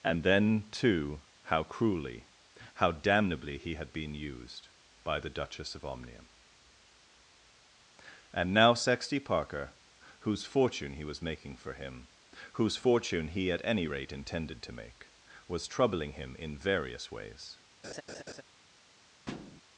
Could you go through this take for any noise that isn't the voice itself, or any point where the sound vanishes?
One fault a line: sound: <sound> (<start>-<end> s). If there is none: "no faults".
sound: laugh (17.8-18.4 s)
sound: thud (19.3-19.6 s)